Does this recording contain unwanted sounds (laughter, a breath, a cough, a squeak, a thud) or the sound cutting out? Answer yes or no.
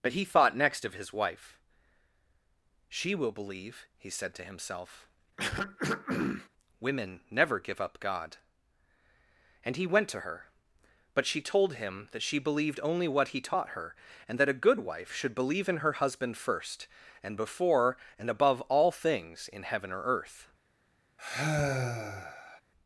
yes